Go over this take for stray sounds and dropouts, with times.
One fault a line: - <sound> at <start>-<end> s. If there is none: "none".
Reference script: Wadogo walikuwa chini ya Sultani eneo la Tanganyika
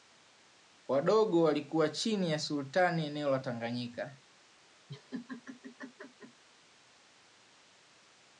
- laugh at 4.9-6.4 s